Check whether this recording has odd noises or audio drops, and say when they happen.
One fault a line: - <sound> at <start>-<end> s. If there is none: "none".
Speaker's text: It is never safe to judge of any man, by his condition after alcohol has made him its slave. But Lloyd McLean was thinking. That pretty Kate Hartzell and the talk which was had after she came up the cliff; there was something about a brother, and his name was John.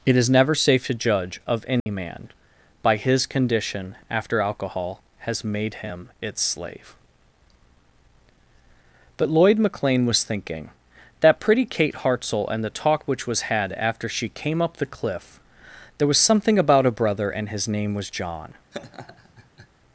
- dropout at 1.8-1.9 s
- laugh at 18.7-19.7 s